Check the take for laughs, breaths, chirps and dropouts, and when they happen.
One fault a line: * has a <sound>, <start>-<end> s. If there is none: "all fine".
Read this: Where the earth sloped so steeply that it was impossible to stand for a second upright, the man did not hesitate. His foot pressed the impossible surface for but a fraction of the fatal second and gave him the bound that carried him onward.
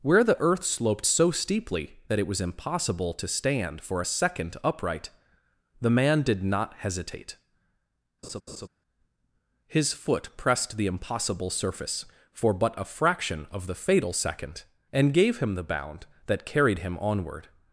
* has a laugh, 8.2-8.7 s